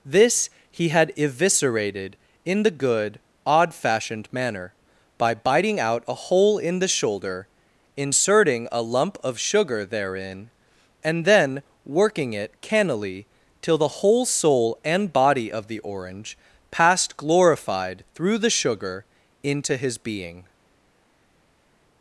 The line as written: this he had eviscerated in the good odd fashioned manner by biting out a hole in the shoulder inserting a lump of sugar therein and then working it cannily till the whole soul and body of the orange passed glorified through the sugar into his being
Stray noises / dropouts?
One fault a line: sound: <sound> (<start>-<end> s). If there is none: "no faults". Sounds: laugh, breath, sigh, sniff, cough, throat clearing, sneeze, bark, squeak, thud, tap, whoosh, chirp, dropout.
no faults